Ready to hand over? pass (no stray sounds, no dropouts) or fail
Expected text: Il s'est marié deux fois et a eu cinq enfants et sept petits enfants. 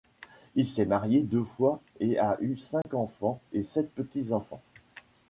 fail